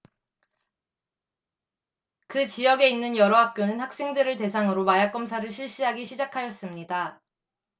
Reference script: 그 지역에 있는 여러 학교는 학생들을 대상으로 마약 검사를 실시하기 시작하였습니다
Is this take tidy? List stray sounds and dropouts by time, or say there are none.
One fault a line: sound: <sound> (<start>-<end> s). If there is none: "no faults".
no faults